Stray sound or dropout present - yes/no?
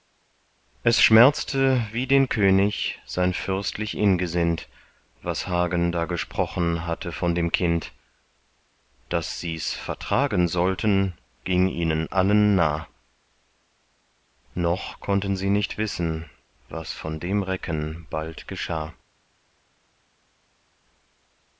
no